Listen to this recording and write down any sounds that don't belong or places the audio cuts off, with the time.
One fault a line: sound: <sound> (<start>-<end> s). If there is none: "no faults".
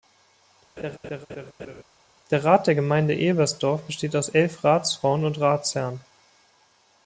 sound: laugh (0.8-1.8 s)